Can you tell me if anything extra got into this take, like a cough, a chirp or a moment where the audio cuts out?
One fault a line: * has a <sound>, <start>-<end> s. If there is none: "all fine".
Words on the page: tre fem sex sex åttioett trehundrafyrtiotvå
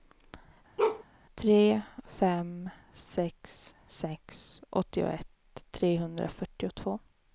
* has a bark, 0.8-1.0 s